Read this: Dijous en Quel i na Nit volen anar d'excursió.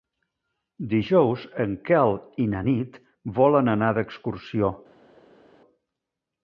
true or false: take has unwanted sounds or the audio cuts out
false